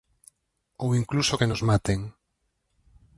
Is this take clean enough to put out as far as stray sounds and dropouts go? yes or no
yes